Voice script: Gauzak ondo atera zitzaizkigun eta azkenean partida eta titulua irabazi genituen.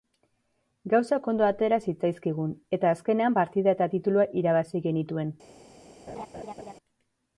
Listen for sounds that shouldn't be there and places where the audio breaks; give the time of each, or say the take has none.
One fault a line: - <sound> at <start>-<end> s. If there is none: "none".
- laugh at 6.1-6.7 s